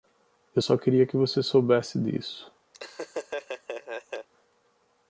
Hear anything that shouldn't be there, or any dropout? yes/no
yes